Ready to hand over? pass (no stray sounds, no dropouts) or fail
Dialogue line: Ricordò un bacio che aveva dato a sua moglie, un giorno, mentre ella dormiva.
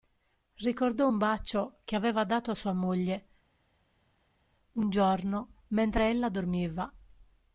pass